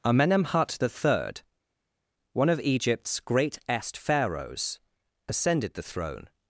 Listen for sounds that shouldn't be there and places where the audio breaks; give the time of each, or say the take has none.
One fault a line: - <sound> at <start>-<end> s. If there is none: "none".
none